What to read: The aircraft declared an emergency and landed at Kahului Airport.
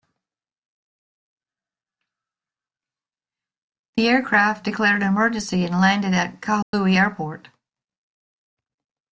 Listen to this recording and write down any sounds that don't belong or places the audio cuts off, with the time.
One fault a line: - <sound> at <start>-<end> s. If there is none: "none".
- dropout at 6.6-6.7 s